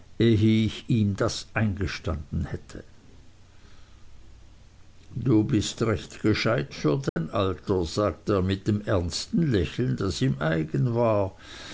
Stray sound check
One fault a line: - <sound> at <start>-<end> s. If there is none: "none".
- dropout at 7.1-7.2 s